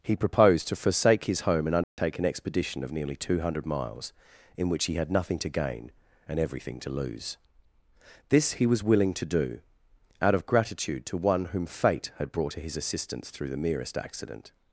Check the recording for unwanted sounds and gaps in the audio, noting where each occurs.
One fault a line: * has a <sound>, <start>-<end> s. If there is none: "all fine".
* has a dropout, 1.8-2.0 s